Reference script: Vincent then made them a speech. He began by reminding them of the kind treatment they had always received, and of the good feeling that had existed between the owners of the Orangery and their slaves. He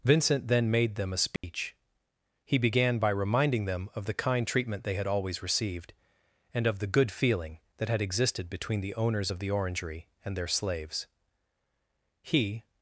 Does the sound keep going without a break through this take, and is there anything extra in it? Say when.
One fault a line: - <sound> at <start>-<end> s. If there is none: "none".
- dropout at 1.4-1.4 s